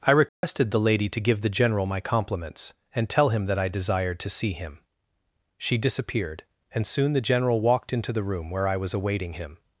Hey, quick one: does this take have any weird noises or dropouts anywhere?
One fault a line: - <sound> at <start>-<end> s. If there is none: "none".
- dropout at 0.3-0.4 s